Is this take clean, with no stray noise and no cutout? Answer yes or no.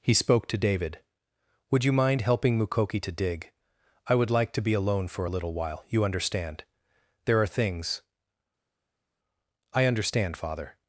yes